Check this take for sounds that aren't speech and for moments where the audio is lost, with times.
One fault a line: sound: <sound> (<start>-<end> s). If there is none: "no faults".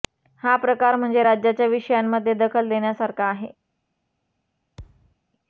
sound: thud (4.8-5.2 s)